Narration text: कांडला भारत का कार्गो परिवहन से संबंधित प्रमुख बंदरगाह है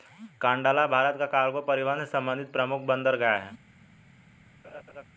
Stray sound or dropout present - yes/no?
yes